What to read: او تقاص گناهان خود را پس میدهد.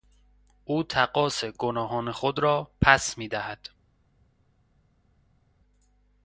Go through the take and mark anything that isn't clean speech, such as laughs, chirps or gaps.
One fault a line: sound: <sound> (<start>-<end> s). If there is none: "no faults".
no faults